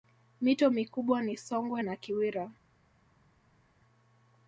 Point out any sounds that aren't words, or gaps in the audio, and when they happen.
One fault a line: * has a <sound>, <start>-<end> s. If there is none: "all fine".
all fine